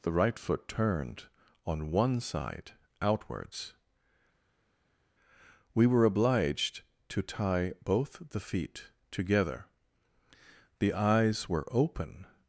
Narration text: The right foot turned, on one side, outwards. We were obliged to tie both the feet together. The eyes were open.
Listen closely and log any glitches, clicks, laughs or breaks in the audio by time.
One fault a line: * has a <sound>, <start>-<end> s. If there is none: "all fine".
all fine